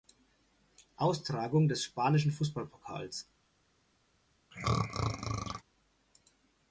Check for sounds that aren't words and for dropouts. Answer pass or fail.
fail